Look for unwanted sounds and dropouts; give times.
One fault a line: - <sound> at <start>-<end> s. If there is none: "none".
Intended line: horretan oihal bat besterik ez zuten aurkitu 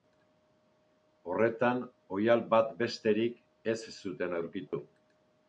- dropout at 4.7-4.7 s